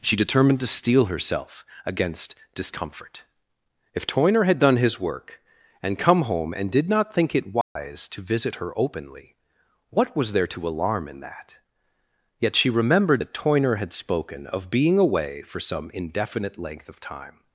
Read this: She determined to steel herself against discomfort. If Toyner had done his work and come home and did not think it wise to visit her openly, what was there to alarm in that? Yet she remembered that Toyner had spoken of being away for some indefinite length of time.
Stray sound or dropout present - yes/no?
yes